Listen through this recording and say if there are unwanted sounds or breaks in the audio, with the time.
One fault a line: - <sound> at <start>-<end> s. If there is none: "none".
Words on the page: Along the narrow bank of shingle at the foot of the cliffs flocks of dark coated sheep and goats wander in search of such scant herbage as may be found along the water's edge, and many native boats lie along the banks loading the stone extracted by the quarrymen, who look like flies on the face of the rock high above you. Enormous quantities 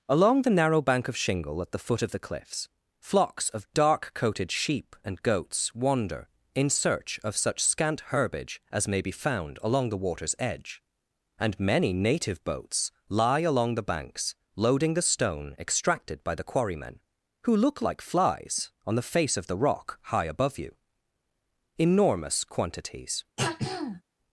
- throat clearing at 23.4-24.0 s